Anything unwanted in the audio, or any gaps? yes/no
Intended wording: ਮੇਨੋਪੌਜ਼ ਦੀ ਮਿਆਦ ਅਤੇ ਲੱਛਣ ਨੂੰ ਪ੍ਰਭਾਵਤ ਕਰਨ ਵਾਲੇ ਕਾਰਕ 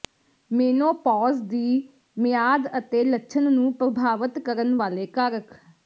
no